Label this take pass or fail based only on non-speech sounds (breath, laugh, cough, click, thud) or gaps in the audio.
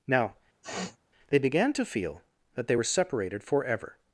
fail